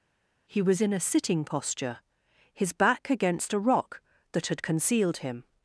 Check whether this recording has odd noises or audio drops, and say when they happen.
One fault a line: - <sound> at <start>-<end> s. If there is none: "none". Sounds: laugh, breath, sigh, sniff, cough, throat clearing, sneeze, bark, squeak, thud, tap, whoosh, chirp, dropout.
none